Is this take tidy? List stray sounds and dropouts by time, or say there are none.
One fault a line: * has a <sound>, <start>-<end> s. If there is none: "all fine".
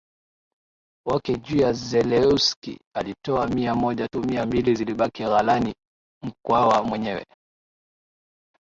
all fine